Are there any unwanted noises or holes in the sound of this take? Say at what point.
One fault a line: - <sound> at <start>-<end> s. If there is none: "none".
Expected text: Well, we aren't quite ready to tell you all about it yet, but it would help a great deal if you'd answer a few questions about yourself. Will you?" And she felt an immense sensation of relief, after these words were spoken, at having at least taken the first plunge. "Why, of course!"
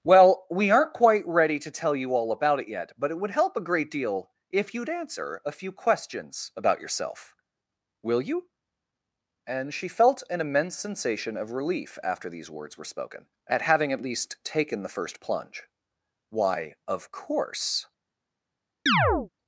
- chirp at 18.9-19.3 s